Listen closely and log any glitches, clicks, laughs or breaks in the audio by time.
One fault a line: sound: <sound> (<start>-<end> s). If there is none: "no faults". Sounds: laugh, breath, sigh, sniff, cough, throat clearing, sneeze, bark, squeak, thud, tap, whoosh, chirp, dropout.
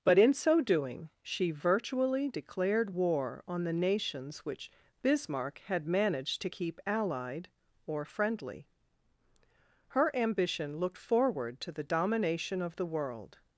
no faults